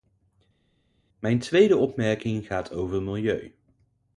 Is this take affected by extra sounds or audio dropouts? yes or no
no